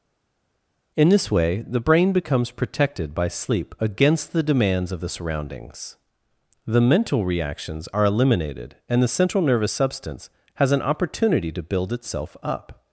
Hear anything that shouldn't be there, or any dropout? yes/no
no